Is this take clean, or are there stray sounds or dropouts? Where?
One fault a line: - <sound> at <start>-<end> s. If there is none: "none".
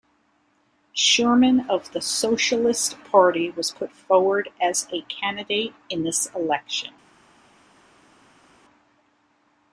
none